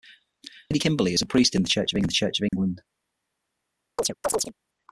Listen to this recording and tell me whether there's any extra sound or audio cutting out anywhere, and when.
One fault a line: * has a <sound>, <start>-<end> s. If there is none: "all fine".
* has a dropout, 2.5-2.5 s
* has a chirp, 4.0-4.5 s